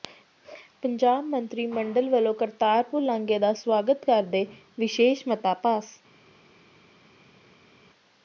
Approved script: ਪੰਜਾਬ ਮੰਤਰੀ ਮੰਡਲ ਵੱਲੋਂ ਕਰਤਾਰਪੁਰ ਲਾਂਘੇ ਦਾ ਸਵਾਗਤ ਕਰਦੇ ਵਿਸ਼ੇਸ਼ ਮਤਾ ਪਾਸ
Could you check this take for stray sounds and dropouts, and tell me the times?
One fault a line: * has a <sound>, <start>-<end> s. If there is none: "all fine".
all fine